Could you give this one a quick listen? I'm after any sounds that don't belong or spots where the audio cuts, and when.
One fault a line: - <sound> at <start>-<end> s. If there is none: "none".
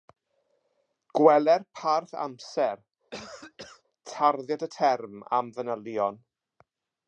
- cough at 3.1-3.8 s